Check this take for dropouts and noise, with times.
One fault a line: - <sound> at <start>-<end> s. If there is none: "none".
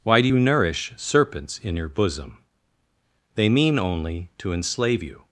none